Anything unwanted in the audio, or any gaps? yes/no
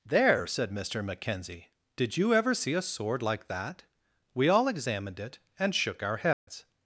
yes